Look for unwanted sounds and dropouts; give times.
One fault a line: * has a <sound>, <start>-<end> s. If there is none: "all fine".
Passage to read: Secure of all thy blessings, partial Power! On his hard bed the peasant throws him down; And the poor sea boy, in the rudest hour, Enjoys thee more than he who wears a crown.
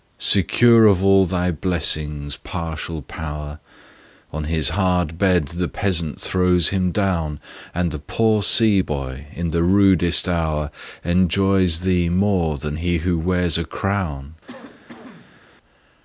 * has a cough, 14.5-15.4 s